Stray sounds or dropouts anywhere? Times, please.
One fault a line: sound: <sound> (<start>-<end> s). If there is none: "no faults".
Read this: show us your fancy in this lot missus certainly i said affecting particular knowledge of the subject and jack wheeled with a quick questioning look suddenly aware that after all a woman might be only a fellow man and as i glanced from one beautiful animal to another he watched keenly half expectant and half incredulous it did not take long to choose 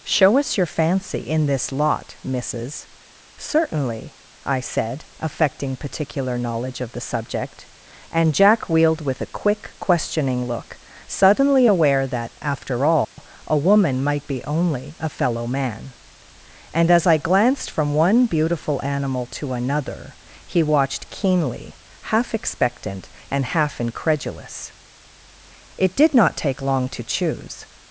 sound: dropout (13.0-13.2 s)